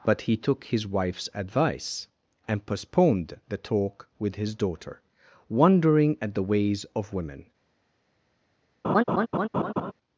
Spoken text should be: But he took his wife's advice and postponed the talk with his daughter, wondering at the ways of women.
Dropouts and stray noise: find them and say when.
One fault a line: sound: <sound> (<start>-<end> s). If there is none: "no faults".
sound: laugh (8.8-9.9 s)